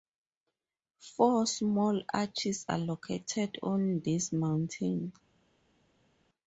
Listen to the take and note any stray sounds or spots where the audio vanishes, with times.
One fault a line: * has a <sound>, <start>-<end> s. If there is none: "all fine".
all fine